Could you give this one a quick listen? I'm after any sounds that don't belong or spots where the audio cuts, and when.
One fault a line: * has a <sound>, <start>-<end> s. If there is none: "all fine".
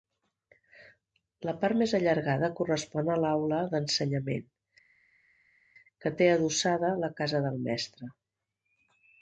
all fine